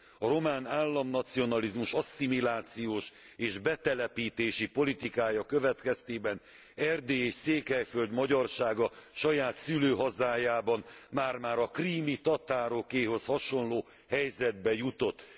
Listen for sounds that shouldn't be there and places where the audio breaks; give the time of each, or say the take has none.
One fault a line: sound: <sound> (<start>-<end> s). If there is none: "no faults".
no faults